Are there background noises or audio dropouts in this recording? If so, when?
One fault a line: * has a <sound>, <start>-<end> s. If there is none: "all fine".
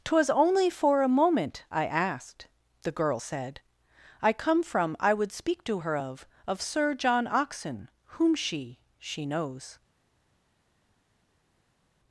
all fine